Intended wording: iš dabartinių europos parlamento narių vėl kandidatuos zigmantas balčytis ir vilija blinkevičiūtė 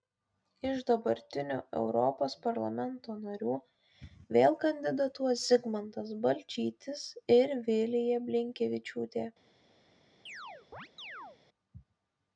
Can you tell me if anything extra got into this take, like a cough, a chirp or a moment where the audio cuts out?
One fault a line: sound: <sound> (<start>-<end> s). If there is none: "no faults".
sound: chirp (10.3-11.4 s)